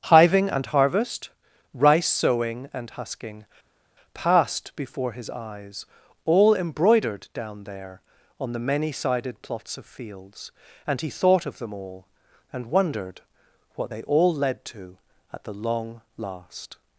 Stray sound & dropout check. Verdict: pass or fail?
pass